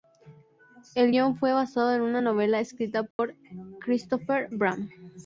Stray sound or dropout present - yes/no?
yes